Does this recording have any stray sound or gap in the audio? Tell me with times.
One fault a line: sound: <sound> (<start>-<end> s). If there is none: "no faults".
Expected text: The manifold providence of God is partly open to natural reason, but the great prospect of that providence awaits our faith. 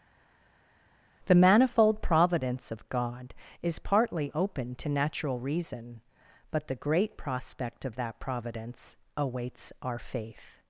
no faults